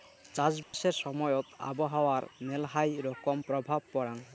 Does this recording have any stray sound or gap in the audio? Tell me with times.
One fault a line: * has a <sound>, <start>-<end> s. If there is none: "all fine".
* has a dropout, 0.6-0.7 s